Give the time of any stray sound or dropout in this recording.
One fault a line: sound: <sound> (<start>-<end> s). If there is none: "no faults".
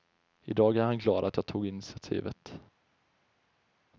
no faults